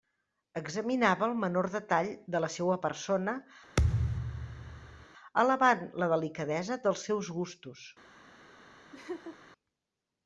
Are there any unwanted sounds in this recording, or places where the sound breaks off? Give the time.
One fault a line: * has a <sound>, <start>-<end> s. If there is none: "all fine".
* has a thud, 3.8-5.1 s
* has a laugh, 8.9-9.4 s